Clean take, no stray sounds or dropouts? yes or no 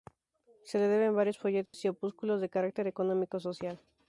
no